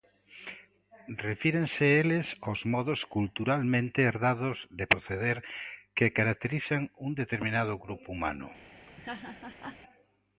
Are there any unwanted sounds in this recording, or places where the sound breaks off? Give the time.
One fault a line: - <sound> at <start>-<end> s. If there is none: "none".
- laugh at 8.9-9.8 s